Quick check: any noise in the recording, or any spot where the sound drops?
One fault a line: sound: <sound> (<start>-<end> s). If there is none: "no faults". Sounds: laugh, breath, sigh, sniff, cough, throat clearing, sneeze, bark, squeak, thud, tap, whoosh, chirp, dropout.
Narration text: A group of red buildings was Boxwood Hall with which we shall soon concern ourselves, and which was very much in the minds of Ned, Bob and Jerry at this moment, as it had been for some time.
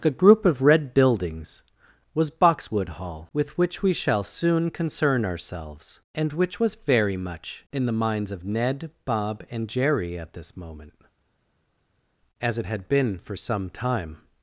no faults